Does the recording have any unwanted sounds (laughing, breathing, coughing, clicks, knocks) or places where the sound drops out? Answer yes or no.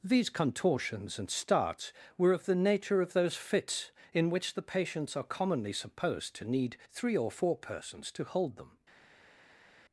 no